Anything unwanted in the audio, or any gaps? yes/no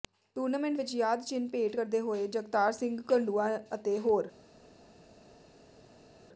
no